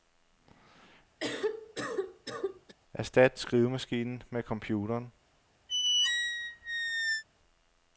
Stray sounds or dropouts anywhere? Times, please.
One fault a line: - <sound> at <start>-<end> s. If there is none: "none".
- cough at 1.2-2.8 s
- squeak at 5.7-7.2 s